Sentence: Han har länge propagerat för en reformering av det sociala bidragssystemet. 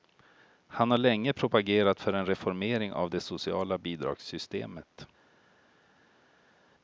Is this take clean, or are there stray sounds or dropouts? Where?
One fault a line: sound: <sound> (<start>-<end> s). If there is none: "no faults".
no faults